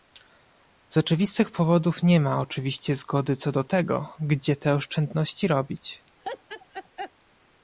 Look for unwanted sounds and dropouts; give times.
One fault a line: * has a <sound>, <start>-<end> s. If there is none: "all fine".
* has a laugh, 6.2-7.1 s